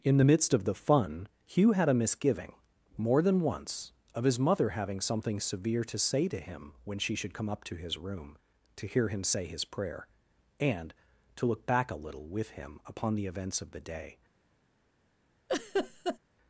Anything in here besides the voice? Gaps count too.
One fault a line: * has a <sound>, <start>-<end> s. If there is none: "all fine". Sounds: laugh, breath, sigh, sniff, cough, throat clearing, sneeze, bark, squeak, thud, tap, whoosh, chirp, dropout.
* has a laugh, 15.5-16.2 s